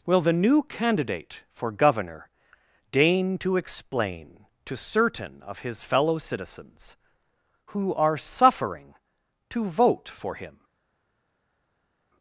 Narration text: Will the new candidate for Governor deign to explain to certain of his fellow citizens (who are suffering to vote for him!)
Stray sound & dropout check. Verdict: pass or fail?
pass